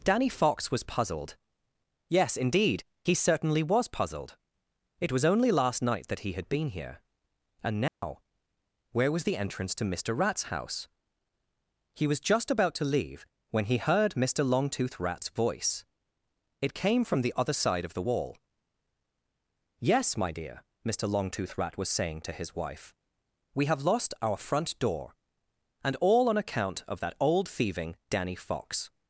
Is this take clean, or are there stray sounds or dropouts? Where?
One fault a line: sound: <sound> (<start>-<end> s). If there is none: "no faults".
sound: dropout (7.9-8.0 s)